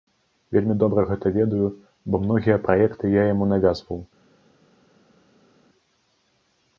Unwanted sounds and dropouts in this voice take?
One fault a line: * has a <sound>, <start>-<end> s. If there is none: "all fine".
all fine